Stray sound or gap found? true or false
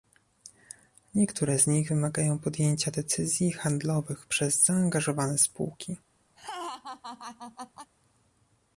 true